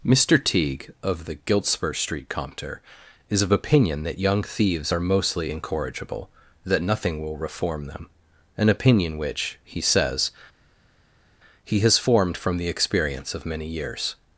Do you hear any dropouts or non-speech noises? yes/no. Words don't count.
no